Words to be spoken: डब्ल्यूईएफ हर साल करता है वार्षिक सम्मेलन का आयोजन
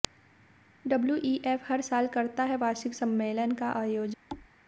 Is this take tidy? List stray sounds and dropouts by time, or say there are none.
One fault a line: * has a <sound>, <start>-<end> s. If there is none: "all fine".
* has a thud, 4.3-4.5 s